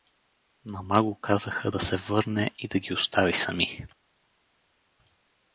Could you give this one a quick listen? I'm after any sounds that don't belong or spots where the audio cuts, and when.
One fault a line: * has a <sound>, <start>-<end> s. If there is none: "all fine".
all fine